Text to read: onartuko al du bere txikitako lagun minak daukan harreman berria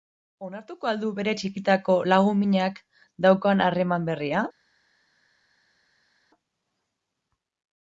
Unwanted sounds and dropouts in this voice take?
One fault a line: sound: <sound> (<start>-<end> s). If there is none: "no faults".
no faults